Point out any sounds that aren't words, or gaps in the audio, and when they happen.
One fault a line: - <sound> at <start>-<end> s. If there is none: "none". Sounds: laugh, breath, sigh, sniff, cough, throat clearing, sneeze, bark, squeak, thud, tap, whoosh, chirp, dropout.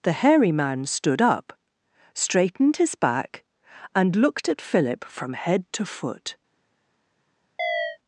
- chirp at 7.6-8.0 s